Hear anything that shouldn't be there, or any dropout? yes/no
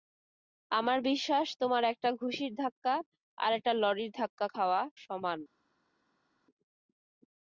no